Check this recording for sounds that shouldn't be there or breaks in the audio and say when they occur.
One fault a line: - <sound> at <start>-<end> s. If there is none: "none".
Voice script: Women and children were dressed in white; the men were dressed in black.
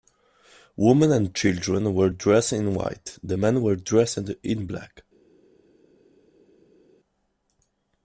none